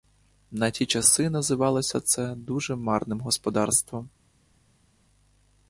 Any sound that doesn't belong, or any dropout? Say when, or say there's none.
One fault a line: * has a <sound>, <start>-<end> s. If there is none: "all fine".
all fine